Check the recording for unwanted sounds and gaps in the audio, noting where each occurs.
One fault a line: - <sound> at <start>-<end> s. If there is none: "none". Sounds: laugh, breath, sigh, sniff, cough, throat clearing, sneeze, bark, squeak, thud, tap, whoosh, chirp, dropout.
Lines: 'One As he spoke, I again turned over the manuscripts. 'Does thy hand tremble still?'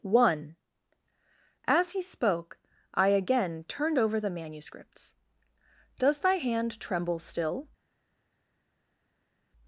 none